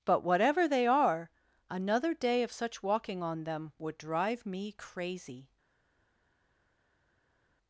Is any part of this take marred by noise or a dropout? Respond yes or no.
no